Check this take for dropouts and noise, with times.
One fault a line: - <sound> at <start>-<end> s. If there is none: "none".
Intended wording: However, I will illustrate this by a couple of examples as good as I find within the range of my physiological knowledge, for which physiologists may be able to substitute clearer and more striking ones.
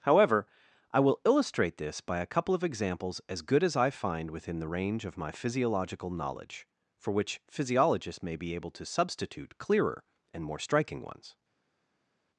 none